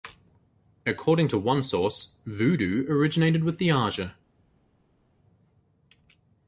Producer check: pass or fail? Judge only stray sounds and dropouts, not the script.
pass